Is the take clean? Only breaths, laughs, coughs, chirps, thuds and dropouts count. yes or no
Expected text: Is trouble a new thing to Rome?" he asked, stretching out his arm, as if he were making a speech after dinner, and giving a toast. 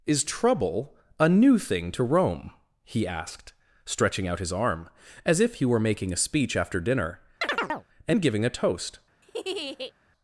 no